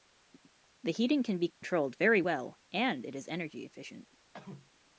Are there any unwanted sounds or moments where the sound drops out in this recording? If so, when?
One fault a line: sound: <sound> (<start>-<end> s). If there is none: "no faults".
sound: dropout (1.5-1.6 s)
sound: cough (4.3-4.7 s)